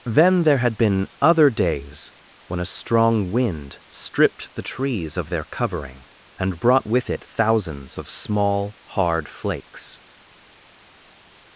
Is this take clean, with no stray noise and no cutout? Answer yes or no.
yes